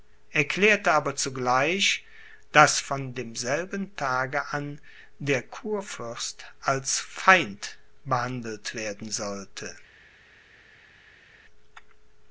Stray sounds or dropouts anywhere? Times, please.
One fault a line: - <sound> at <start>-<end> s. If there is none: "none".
none